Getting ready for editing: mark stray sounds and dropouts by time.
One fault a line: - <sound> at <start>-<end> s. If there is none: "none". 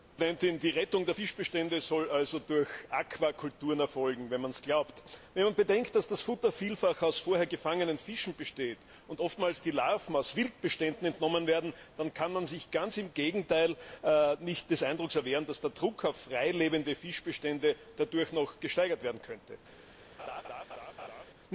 - laugh at 20.2-21.2 s